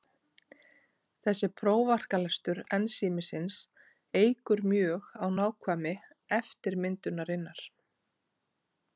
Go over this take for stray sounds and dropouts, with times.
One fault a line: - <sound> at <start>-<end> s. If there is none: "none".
none